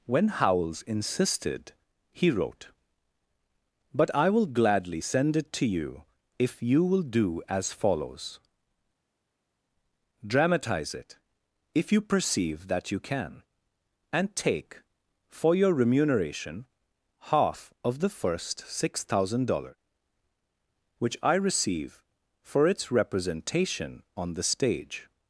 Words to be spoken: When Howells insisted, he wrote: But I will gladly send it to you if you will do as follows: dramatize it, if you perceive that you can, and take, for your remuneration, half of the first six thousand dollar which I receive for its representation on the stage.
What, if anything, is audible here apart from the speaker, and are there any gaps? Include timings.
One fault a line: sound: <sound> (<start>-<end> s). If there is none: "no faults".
no faults